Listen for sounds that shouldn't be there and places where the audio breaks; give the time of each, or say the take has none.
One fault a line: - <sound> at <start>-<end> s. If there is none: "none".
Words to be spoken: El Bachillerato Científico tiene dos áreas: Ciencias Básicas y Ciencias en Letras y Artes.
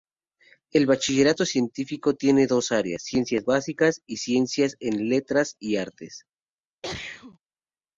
- sneeze at 6.8-7.4 s